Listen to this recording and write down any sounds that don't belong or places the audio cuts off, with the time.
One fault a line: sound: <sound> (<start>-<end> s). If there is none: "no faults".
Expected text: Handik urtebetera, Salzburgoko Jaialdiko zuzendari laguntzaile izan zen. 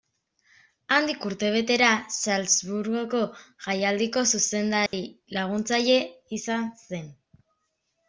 sound: dropout (4.9-4.9 s)